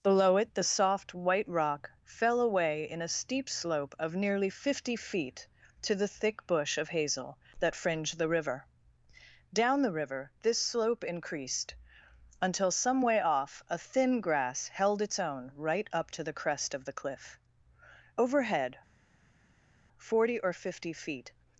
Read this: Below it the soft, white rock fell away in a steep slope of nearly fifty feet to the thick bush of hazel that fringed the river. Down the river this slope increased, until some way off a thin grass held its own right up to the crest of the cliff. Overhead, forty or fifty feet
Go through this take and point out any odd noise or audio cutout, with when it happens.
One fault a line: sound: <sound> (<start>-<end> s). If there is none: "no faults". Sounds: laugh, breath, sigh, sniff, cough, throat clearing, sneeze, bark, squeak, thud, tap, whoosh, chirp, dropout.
no faults